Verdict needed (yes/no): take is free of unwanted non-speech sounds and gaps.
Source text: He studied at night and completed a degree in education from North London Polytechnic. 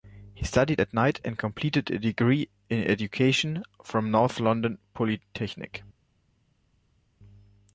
yes